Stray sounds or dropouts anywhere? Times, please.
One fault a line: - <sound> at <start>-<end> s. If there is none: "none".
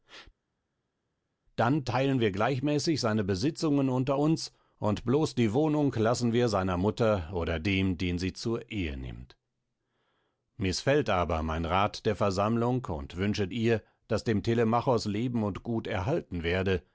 none